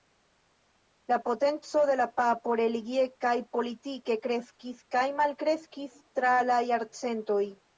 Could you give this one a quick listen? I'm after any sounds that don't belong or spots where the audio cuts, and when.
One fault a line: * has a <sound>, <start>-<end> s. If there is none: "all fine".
all fine